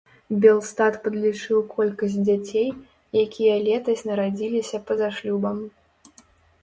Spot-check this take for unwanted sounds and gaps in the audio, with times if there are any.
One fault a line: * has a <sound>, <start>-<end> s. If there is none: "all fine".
all fine